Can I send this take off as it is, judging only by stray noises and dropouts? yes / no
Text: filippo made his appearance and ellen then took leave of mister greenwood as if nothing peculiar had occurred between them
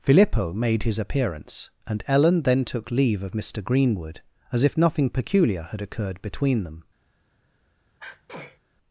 no